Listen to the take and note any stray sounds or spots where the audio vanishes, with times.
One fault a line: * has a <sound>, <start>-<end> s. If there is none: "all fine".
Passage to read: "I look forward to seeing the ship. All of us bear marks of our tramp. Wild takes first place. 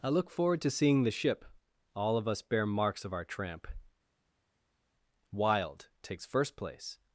all fine